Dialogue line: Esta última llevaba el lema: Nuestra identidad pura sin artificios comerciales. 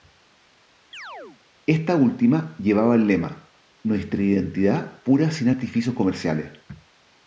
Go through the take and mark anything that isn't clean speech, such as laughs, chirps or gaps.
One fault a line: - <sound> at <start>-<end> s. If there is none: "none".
- chirp at 0.9-1.4 s